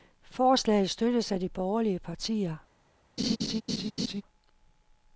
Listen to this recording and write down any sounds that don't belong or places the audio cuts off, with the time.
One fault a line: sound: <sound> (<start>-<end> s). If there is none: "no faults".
sound: laugh (3.2-4.2 s)